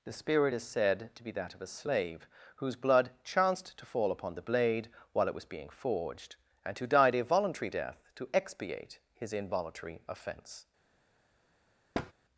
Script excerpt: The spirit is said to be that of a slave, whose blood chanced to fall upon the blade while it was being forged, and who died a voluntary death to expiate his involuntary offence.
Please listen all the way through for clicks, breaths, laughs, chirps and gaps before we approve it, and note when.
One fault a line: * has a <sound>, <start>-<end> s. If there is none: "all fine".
* has a thud, 11.9-12.1 s